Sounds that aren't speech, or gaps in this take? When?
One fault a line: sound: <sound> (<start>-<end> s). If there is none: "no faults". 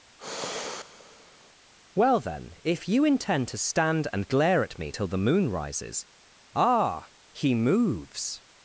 sound: sigh (0.2-1.5 s)